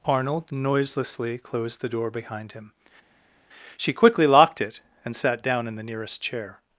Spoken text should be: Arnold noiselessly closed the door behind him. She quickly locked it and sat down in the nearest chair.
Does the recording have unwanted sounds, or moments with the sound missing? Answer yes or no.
no